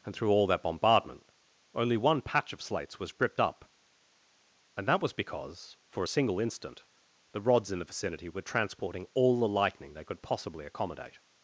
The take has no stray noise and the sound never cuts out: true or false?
true